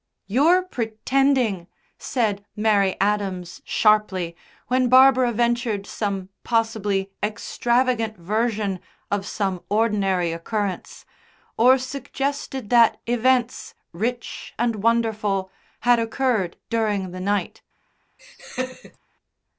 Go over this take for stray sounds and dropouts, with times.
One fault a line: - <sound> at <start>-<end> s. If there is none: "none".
- laugh at 18.2-19.0 s